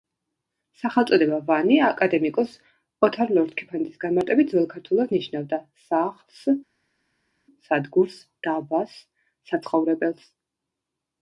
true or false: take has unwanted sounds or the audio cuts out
false